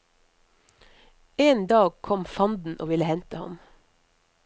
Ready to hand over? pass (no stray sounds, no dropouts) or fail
pass